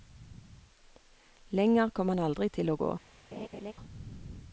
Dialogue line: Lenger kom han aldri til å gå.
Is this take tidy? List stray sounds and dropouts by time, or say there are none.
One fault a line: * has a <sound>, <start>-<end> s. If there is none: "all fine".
* has a laugh, 3.3-3.7 s